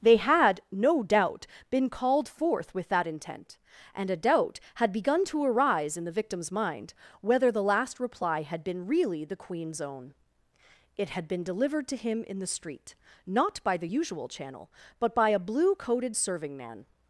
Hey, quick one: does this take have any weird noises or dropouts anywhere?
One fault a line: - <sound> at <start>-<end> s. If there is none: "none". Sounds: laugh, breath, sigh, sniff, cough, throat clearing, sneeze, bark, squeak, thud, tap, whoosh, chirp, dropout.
none